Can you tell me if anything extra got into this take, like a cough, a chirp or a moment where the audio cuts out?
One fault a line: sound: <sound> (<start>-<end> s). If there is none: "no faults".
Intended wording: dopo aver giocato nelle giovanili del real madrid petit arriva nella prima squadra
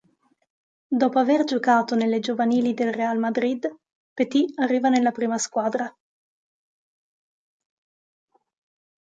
no faults